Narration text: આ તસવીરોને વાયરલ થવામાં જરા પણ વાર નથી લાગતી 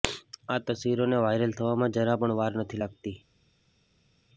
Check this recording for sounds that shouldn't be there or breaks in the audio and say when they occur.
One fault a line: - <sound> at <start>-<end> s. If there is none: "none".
none